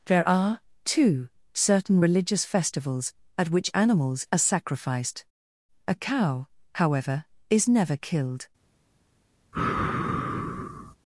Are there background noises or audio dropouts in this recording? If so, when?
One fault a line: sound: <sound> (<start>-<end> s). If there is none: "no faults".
sound: sigh (9.5-11.0 s)